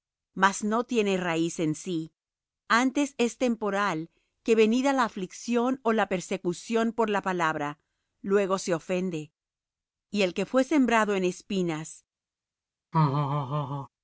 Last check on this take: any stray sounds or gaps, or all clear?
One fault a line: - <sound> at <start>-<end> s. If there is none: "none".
- laugh at 12.9-13.9 s